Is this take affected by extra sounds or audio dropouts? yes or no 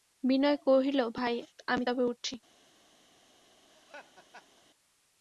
yes